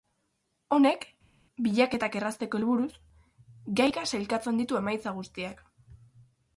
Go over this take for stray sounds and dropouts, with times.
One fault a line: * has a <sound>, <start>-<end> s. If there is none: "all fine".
all fine